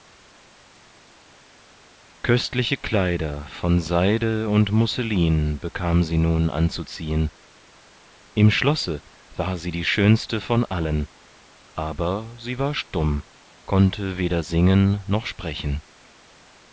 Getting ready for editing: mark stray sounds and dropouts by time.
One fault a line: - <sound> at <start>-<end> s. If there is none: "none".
none